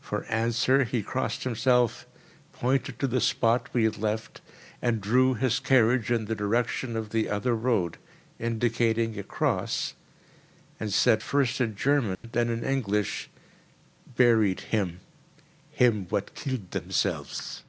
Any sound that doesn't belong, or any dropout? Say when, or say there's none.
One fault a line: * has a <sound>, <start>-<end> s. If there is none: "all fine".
* has a dropout, 12.1-12.2 s